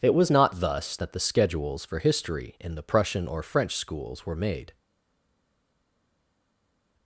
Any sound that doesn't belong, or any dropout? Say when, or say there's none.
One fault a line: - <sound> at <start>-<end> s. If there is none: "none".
none